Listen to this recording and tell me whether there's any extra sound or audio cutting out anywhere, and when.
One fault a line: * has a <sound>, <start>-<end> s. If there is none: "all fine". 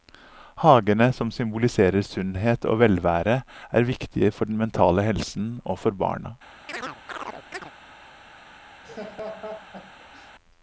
* has a chirp, 6.7-7.7 s
* has a laugh, 8.8-10.3 s